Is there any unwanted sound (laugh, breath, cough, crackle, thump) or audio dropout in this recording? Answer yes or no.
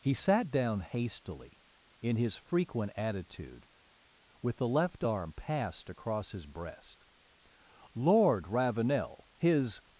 no